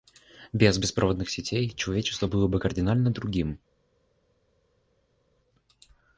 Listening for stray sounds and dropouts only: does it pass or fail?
pass